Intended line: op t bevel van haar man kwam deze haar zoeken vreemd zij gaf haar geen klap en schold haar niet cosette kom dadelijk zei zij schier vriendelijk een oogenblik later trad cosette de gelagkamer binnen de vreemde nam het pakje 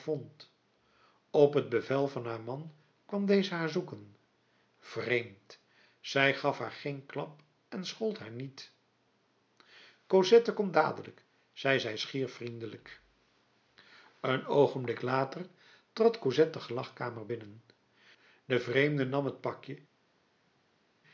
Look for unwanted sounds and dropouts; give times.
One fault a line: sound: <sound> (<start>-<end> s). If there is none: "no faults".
no faults